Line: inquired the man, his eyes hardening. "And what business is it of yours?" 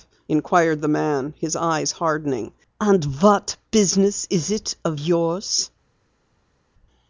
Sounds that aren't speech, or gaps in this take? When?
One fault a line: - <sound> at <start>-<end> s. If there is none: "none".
none